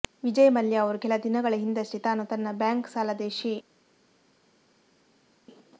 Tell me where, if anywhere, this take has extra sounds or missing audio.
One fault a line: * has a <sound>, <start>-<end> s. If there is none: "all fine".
all fine